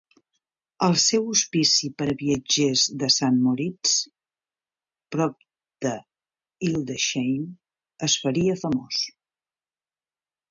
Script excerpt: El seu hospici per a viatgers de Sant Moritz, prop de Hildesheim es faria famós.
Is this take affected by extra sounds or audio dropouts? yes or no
no